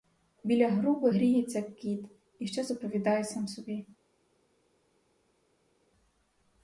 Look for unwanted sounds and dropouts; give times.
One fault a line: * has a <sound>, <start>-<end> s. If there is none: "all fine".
all fine